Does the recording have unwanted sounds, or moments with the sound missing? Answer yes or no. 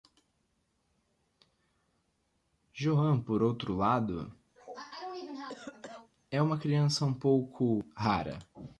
yes